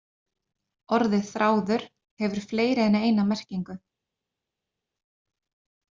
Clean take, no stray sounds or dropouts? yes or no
yes